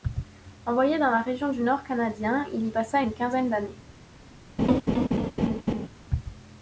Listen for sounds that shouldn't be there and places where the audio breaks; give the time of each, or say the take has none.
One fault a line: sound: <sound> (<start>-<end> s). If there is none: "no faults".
sound: laugh (4.6-5.9 s)